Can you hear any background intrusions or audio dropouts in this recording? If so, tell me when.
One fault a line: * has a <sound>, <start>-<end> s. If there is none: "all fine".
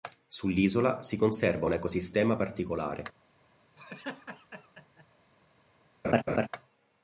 * has a laugh, 3.8-5.0 s
* has a laugh, 6.0-6.5 s